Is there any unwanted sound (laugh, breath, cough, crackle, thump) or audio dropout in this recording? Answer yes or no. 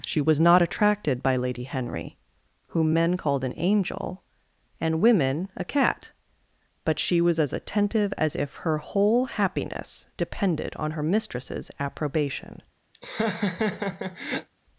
yes